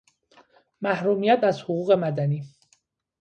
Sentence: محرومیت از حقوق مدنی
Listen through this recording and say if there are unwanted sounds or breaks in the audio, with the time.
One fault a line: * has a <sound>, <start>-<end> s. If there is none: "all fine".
all fine